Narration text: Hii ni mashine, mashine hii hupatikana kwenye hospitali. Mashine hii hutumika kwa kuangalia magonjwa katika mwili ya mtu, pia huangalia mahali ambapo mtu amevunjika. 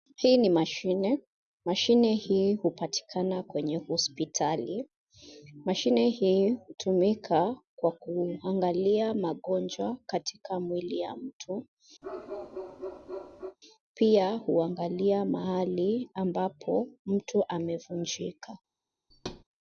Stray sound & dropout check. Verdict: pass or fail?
fail